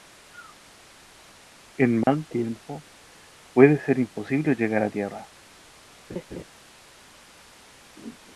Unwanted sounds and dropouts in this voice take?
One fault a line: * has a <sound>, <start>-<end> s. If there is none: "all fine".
* has a dropout, 2.0-2.1 s
* has a laugh, 6.1-6.4 s